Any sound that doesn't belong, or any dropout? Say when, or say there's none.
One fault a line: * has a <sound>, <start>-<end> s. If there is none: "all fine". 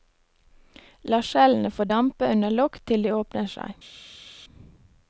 all fine